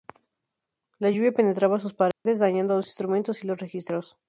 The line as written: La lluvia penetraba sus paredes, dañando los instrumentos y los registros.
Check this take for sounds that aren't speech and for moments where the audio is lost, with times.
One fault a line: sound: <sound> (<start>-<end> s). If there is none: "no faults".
sound: dropout (2.1-2.3 s)